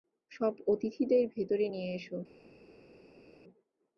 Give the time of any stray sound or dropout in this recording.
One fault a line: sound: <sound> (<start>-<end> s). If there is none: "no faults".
no faults